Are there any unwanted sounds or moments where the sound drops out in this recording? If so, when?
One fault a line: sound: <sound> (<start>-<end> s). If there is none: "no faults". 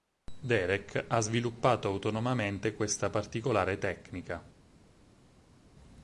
no faults